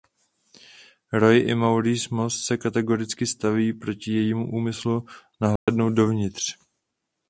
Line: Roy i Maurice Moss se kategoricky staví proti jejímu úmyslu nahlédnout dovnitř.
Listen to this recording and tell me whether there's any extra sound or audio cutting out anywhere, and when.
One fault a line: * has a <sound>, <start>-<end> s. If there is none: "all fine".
* has a dropout, 5.6-5.7 s